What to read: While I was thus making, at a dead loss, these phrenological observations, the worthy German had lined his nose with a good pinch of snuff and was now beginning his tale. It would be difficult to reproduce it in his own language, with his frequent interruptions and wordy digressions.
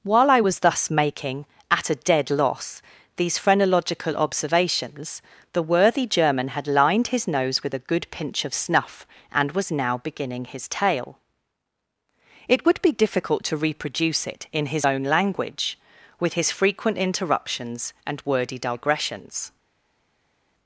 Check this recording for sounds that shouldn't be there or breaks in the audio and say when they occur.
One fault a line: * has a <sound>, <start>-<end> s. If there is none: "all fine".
all fine